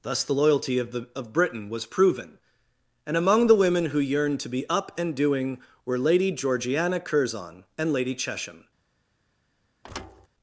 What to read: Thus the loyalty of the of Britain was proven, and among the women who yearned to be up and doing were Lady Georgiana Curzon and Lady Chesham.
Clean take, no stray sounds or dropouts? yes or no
no